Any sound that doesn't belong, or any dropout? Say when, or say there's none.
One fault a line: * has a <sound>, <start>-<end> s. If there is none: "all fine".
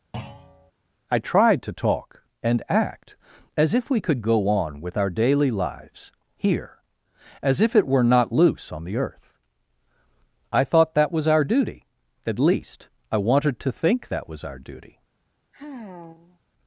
* has a thud, 0.1-0.7 s
* has a sigh, 15.5-16.4 s